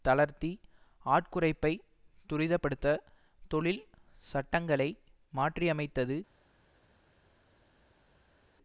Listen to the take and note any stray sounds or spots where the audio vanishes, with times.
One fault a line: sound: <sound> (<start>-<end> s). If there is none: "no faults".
no faults